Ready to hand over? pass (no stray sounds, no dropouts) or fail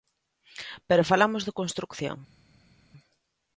pass